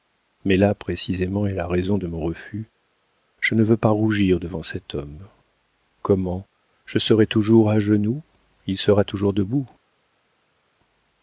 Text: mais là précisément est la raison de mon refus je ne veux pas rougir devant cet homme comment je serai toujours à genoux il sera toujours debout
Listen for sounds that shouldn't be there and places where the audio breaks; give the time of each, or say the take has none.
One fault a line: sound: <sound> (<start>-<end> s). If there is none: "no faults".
no faults